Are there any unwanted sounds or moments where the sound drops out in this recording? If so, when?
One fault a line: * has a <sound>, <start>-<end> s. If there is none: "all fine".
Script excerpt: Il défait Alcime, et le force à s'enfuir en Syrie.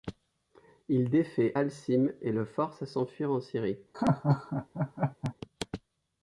* has a laugh, 3.9-5.3 s